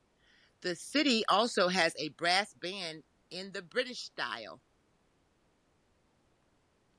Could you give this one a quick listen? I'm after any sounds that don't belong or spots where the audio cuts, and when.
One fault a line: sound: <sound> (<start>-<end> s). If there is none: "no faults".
no faults